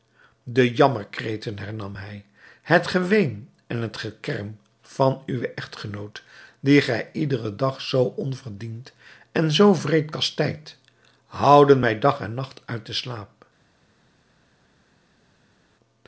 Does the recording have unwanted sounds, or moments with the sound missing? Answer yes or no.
no